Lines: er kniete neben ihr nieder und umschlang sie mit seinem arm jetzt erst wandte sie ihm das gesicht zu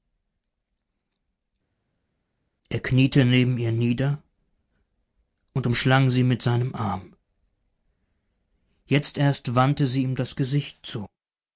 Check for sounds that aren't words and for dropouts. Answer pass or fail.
pass